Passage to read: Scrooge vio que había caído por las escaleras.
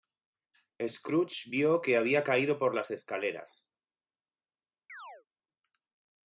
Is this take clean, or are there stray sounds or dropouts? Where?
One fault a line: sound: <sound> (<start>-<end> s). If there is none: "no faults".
sound: chirp (4.9-5.3 s)